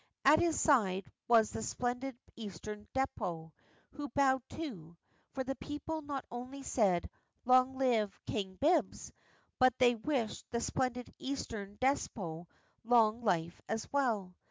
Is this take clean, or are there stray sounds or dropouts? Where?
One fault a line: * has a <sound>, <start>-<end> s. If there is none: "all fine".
all fine